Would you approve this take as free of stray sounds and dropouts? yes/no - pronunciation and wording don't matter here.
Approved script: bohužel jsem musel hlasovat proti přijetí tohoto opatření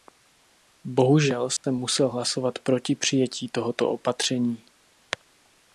no